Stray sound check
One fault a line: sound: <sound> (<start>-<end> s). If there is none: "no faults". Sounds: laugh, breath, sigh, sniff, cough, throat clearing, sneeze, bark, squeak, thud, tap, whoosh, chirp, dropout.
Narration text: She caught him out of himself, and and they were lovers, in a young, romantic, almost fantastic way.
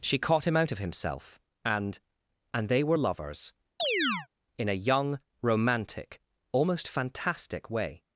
sound: chirp (3.8-4.3 s)